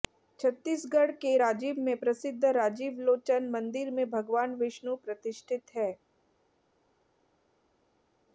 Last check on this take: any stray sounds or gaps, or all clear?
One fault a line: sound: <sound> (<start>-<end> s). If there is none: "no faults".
no faults